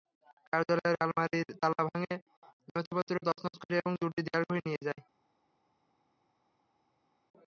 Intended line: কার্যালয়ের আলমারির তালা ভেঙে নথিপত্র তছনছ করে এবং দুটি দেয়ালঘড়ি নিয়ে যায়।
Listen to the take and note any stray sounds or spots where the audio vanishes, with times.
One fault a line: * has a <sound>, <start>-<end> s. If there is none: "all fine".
all fine